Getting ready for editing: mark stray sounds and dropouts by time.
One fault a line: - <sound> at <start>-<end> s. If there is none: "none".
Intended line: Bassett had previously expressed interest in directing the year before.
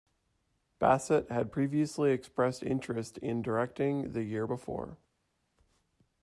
none